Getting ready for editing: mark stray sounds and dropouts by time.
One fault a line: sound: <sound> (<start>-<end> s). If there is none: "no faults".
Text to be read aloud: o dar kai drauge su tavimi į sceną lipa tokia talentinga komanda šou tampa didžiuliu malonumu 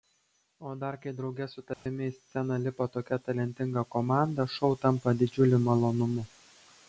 sound: dropout (1.7-1.9 s)